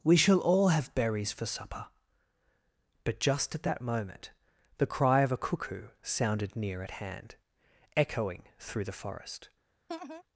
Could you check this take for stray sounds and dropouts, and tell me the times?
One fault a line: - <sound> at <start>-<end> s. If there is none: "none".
- laugh at 9.9-10.2 s